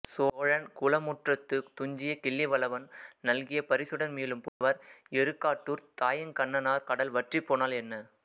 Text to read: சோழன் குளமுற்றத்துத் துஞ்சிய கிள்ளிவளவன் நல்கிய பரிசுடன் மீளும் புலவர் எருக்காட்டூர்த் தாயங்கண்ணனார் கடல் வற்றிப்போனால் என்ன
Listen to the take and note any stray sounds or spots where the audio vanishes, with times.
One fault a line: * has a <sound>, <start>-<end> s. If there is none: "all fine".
* has a dropout, 4.5-4.6 s